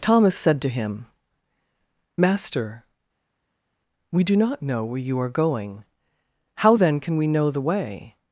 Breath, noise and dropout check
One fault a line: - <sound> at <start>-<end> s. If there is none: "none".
none